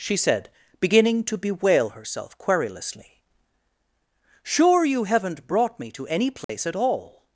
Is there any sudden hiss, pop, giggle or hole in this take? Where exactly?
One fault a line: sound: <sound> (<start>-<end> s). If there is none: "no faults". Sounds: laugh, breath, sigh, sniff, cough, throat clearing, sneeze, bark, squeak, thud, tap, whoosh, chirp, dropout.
sound: dropout (6.4-6.5 s)